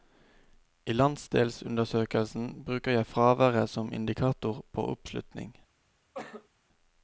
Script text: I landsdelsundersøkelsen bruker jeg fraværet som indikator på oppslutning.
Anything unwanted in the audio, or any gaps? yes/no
yes